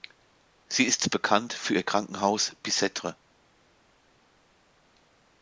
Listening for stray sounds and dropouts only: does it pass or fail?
pass